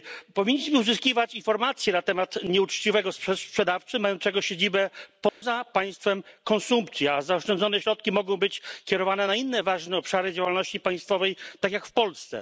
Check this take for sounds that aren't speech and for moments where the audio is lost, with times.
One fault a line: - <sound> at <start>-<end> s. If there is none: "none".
- dropout at 5.3-5.4 s